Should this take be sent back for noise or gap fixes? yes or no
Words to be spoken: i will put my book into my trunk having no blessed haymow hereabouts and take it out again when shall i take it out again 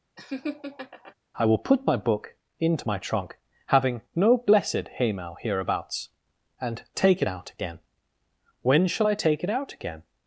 yes